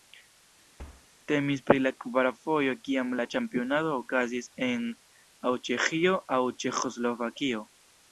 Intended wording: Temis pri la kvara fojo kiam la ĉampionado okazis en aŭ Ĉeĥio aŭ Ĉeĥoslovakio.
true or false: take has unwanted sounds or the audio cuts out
true